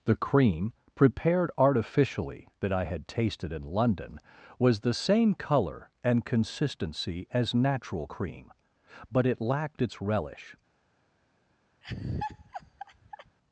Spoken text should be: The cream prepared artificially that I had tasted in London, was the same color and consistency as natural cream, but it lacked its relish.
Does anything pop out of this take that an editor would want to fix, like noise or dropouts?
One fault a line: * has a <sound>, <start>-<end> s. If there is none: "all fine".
* has a laugh, 11.8-13.4 s